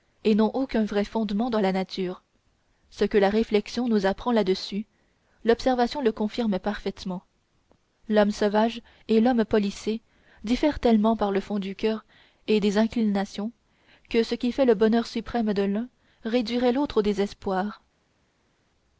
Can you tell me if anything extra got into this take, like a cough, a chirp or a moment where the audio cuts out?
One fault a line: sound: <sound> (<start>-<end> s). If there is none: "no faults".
no faults